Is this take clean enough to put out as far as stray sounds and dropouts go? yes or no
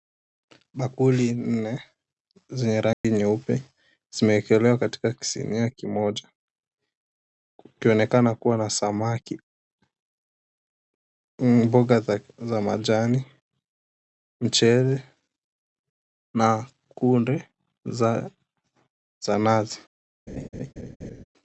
no